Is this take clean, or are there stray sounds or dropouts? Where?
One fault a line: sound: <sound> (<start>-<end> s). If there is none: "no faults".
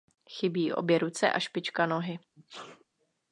sound: sneeze (2.4-2.8 s)